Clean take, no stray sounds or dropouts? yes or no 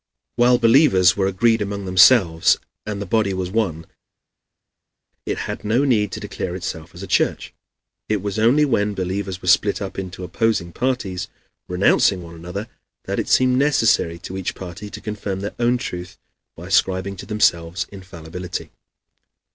yes